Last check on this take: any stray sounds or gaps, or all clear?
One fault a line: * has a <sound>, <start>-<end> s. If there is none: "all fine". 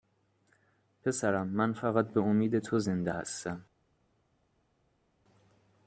all fine